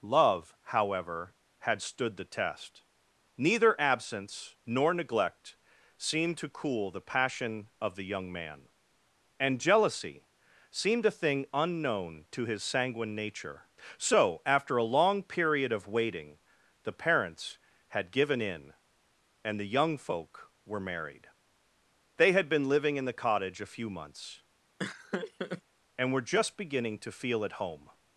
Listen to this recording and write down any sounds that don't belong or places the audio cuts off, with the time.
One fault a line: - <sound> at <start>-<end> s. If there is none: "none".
- laugh at 24.8-25.6 s